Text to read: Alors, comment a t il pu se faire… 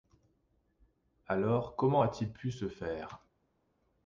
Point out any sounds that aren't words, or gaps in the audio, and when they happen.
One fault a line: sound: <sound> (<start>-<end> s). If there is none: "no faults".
no faults